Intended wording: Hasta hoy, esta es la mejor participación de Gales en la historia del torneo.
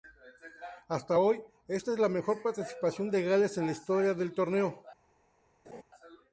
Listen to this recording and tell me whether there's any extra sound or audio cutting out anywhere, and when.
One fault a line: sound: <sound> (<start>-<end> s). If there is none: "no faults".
sound: laugh (5.6-5.8 s)